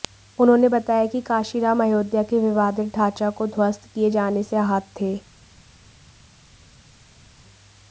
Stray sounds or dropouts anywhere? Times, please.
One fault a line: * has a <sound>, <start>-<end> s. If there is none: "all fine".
all fine